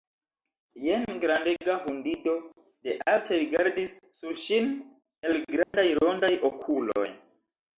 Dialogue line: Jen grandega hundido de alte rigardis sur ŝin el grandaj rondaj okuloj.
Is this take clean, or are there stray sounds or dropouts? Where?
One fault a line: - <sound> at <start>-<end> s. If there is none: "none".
- dropout at 5.6-5.7 s